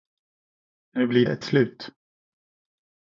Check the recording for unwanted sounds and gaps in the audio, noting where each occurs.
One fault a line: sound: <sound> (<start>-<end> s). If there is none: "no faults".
no faults